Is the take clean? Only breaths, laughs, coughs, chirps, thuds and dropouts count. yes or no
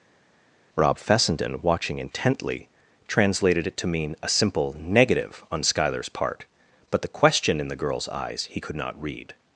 yes